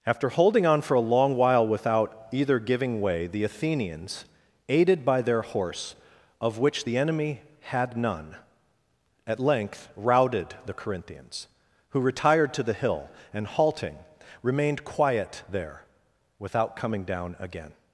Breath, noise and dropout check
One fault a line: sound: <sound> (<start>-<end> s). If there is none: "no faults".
no faults